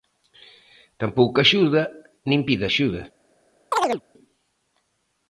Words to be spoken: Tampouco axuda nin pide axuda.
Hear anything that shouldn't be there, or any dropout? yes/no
yes